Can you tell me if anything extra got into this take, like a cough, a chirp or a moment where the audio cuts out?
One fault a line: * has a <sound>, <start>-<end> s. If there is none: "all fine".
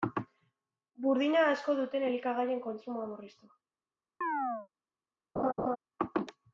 * has a chirp, 4.2-4.7 s
* has a laugh, 5.4-5.8 s